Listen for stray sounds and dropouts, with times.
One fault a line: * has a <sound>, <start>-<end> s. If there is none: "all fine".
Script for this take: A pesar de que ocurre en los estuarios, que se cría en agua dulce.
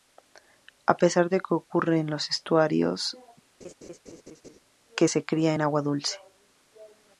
* has a laugh, 3.6-4.6 s